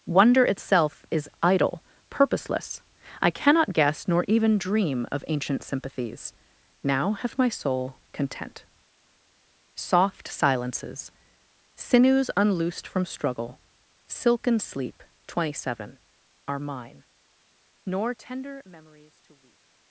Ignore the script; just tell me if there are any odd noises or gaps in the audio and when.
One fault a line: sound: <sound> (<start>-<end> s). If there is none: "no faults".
no faults